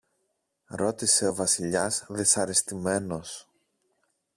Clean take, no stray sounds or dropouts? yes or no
yes